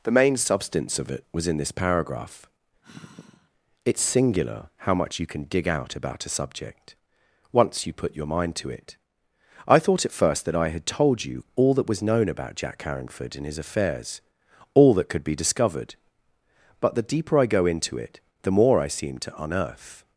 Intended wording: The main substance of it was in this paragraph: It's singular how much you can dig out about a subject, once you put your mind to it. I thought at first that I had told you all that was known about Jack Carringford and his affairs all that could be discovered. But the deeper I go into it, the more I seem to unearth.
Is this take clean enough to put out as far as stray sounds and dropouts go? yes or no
no